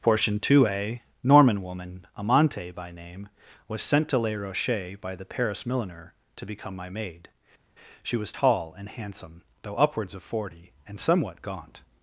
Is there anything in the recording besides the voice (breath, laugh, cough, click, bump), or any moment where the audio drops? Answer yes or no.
no